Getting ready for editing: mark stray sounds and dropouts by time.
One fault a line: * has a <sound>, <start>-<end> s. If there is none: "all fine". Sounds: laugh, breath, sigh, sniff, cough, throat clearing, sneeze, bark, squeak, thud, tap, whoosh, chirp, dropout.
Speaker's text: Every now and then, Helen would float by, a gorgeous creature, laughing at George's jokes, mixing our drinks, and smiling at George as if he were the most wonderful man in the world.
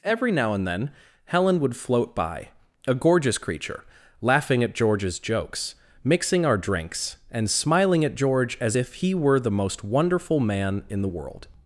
all fine